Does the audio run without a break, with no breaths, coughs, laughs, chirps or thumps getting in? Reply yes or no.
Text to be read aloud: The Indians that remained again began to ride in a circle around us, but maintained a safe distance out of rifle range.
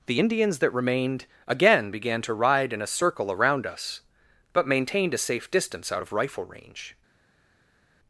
yes